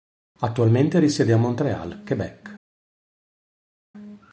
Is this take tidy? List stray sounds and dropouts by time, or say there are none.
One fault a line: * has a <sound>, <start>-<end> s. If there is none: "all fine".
all fine